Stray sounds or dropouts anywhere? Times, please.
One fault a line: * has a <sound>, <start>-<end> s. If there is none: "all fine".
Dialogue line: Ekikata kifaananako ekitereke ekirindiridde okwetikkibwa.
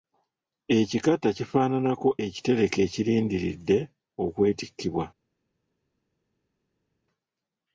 all fine